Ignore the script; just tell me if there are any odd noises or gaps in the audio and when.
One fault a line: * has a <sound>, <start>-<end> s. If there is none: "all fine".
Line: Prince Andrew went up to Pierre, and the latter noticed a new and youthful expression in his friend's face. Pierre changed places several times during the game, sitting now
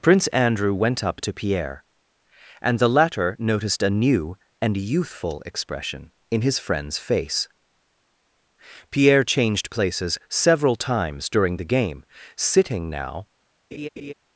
* has a laugh, 13.7-14.1 s